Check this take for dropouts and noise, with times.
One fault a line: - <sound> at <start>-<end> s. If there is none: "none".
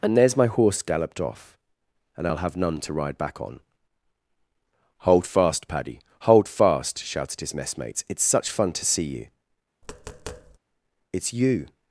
- tap at 9.8-10.6 s